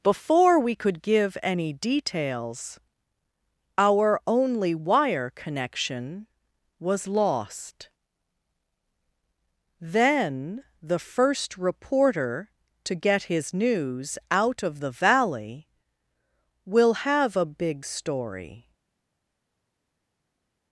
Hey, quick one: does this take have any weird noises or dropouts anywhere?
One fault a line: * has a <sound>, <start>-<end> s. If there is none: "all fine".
all fine